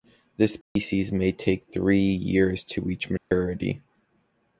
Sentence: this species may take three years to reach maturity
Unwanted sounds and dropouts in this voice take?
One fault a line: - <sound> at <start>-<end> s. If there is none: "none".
- dropout at 0.6-0.8 s
- dropout at 3.2-3.3 s